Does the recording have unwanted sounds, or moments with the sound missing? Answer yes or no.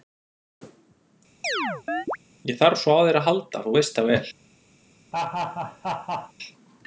yes